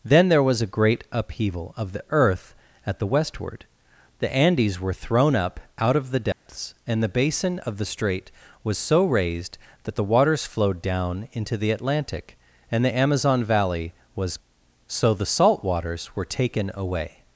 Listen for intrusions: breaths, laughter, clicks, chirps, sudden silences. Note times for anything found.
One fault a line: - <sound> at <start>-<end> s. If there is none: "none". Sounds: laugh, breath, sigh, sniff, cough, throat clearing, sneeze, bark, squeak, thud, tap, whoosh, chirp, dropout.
- dropout at 6.3-6.5 s